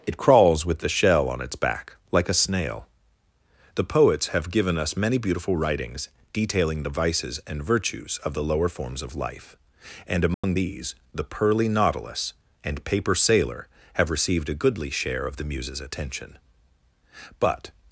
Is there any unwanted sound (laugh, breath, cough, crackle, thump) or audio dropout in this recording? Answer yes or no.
yes